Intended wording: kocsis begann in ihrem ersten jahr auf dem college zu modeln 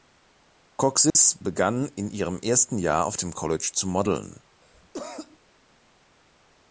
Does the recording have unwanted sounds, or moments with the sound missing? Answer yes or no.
yes